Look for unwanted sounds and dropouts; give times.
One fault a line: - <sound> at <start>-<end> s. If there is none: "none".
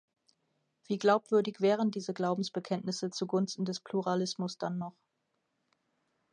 none